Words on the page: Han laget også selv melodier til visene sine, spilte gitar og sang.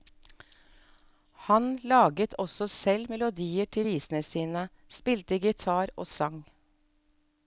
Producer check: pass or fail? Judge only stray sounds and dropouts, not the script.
pass